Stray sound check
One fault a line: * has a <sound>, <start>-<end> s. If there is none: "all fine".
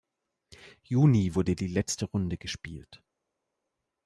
all fine